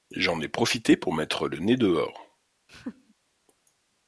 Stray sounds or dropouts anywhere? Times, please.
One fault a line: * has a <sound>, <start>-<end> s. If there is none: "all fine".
* has a laugh, 2.7-3.1 s